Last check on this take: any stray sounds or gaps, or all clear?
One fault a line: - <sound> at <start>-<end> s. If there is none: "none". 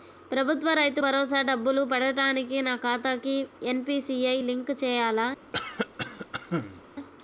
- cough at 5.5-6.8 s